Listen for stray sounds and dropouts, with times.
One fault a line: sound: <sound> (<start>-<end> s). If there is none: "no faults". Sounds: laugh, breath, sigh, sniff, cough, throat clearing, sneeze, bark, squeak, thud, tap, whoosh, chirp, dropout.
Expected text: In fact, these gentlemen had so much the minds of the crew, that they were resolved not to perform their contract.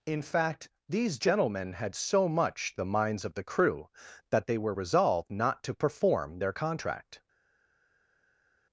no faults